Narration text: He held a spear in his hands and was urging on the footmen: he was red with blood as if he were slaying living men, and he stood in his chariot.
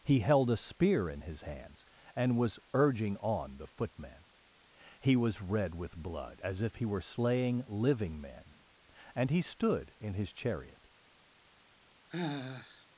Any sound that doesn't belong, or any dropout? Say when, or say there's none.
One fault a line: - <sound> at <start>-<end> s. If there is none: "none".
- sigh at 12.1-12.9 s